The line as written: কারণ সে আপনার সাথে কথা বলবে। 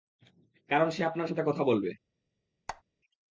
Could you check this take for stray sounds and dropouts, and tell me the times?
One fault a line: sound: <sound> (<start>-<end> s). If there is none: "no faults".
sound: squeak (2.7-2.8 s)